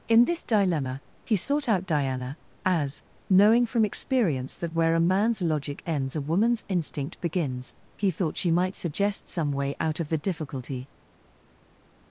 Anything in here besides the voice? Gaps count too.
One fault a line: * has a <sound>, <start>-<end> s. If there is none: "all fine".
all fine